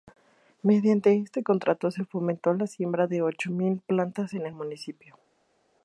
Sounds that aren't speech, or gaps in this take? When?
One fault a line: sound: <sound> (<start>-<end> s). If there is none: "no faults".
no faults